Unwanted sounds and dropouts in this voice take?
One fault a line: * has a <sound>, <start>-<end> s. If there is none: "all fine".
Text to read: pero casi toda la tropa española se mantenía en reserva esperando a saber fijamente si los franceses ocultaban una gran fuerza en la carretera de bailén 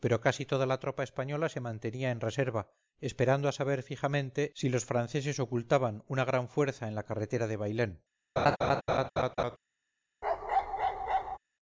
* has a laugh, 8.4-9.6 s
* has a bark, 10.2-11.4 s